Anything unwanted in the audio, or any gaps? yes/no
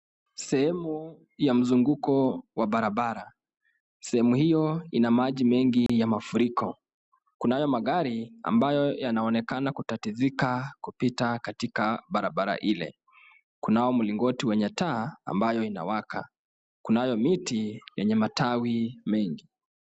yes